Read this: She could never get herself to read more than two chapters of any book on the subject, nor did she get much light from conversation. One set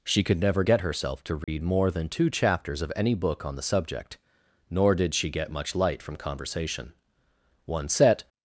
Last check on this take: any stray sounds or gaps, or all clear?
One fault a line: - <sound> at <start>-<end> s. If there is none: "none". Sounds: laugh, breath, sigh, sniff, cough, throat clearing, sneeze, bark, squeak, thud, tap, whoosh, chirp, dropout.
- dropout at 1.4-1.5 s